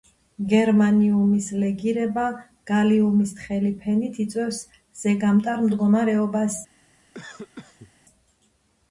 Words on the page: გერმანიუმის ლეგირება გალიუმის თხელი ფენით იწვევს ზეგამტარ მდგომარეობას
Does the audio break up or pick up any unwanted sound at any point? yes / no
yes